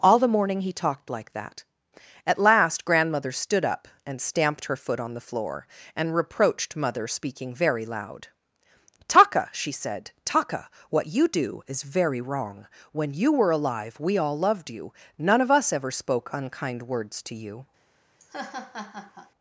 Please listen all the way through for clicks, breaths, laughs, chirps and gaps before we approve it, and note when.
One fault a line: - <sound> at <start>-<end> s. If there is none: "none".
- laugh at 18.2-19.3 s